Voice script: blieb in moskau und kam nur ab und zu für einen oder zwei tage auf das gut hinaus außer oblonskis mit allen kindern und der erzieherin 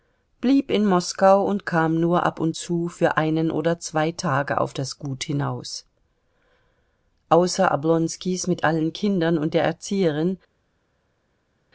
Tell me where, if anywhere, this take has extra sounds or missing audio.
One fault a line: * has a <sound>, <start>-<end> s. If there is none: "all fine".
all fine